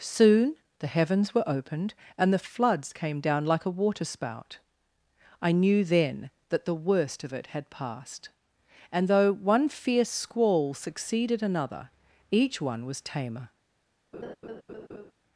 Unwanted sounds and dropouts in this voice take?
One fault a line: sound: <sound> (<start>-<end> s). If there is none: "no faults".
sound: laugh (14.1-15.1 s)